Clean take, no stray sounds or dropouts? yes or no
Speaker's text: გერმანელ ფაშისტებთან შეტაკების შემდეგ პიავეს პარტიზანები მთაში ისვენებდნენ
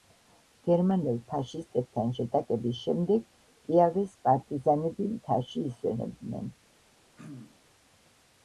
no